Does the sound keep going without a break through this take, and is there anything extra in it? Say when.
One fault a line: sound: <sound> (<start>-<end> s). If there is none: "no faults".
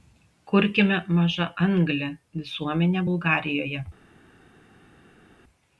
no faults